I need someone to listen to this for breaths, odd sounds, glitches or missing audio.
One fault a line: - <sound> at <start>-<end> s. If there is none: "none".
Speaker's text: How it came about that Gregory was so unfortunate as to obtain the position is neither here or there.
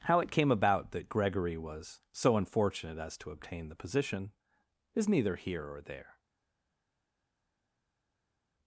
none